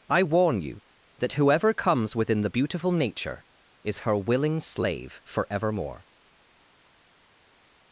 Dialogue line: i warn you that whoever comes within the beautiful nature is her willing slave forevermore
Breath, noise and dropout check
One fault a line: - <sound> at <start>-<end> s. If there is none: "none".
none